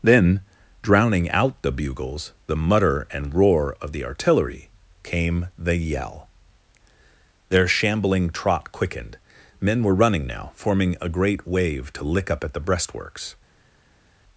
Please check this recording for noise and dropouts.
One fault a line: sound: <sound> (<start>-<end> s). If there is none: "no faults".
no faults